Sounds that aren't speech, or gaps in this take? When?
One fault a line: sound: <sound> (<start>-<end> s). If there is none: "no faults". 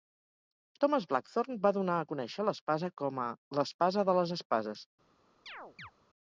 sound: chirp (5.5-5.9 s)